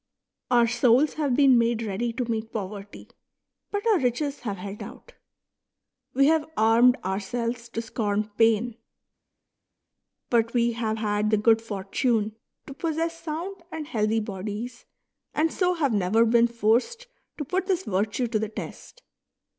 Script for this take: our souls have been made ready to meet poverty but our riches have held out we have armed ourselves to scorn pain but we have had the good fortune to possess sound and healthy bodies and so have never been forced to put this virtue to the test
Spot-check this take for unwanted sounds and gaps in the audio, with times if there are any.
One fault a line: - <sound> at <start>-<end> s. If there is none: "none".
none